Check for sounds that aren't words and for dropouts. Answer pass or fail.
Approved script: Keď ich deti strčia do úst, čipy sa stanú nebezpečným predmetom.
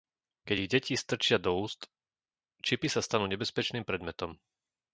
pass